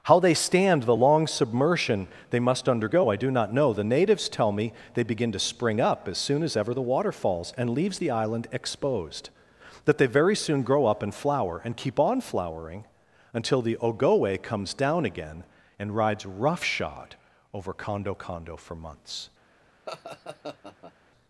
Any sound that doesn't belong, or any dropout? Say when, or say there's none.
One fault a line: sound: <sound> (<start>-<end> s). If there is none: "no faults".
sound: laugh (19.9-20.9 s)